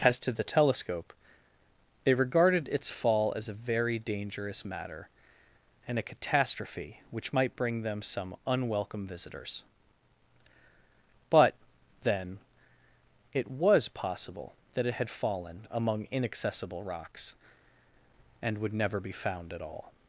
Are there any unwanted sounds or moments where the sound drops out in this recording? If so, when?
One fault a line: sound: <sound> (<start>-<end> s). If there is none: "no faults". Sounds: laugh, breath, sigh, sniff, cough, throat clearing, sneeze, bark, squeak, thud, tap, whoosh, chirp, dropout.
no faults